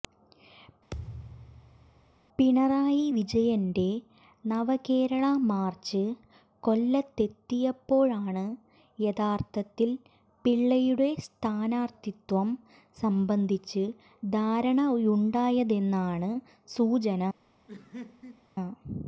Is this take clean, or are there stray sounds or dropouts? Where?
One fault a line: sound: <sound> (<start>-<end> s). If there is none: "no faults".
sound: thud (0.9-2.2 s)
sound: laugh (17.7-18.5 s)